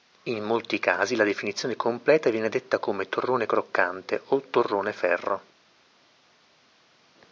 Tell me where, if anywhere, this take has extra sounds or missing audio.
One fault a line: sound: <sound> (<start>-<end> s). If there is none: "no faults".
no faults